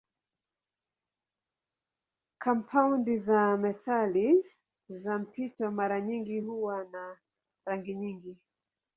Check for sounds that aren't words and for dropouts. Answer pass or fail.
pass